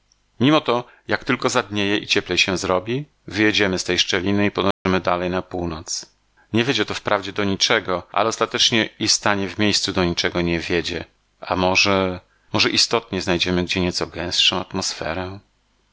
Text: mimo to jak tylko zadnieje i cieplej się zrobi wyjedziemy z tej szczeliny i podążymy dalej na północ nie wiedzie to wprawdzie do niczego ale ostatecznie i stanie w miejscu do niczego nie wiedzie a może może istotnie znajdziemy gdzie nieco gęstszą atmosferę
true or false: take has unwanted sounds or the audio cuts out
true